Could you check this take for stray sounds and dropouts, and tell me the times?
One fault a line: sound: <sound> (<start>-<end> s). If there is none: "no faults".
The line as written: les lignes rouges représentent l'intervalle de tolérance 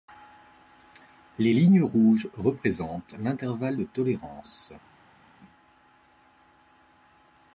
no faults